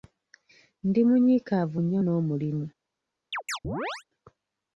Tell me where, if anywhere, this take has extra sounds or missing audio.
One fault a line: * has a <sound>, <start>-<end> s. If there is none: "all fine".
* has a chirp, 3.3-4.0 s